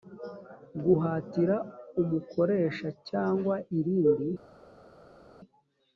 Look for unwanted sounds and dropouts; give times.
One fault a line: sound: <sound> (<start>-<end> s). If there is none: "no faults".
no faults